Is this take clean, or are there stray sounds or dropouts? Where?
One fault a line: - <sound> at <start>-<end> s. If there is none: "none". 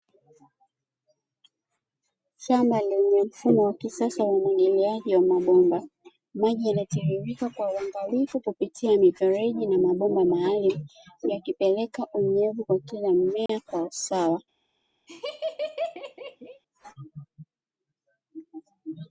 - dropout at 13.5-13.5 s
- laugh at 15.1-16.6 s